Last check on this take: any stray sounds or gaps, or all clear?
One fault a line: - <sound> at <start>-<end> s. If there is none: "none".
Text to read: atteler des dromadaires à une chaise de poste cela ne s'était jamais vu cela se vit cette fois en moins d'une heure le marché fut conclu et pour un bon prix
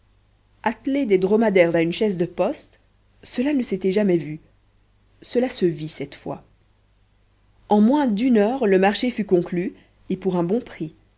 none